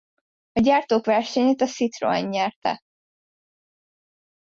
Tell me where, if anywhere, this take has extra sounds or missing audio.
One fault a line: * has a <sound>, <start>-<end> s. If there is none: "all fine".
all fine